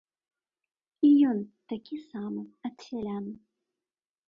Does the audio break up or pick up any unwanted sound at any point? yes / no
no